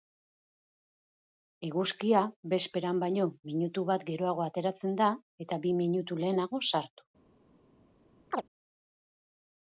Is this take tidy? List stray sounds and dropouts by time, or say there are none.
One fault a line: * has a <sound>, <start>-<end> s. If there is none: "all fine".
* has a chirp, 8.3-8.4 s